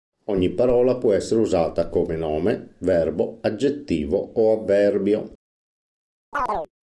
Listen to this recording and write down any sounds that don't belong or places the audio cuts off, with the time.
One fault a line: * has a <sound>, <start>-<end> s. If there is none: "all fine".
* has a chirp, 6.3-6.7 s